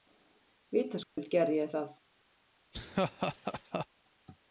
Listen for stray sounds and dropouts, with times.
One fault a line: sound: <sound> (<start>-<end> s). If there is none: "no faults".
sound: dropout (1.0-1.2 s)
sound: laugh (2.7-3.9 s)